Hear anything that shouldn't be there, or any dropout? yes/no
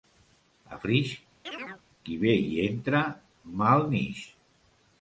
yes